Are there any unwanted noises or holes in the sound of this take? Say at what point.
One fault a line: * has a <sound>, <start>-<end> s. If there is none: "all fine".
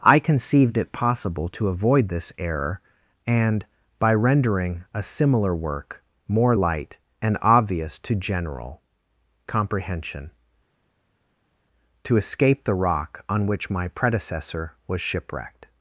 all fine